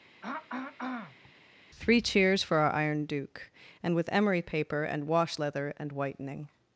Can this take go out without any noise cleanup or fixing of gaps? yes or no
no